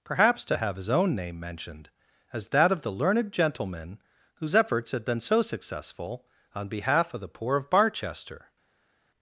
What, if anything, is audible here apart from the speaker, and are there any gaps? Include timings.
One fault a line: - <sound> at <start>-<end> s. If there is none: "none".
none